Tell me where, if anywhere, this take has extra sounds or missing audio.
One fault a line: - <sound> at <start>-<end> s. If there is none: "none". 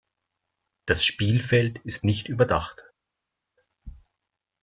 none